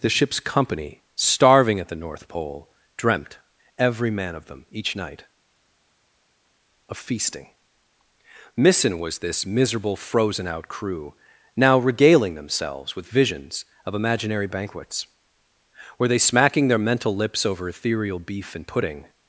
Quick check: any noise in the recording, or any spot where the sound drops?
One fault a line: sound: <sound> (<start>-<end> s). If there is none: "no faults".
no faults